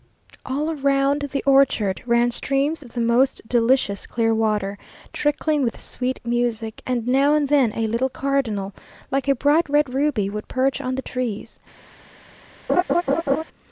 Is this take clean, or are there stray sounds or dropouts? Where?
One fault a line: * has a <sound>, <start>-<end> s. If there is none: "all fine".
* has a laugh, 12.7-13.4 s